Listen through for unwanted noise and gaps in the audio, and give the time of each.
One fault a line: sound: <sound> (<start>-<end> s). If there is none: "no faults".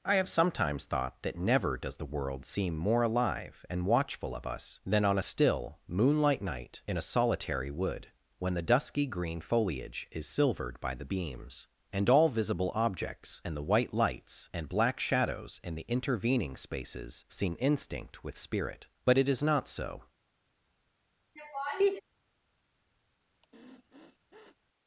sound: laugh (21.4-22.0 s)
sound: sniff (23.3-24.6 s)